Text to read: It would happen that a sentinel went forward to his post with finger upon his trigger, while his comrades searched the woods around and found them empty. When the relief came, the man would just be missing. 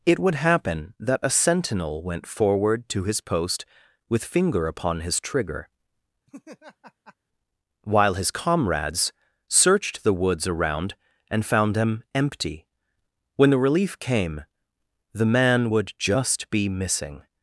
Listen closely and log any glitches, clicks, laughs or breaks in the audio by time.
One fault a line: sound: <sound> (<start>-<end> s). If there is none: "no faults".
sound: laugh (6.3-7.2 s)